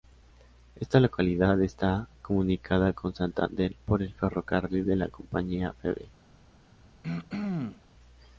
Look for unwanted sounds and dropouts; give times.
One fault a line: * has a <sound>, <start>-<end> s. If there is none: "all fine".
* has a throat clearing, 7.0-7.8 s